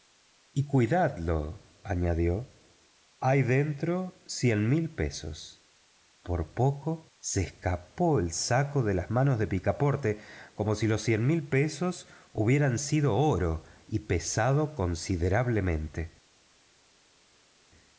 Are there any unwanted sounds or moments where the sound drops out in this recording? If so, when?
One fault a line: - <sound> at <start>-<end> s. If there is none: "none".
none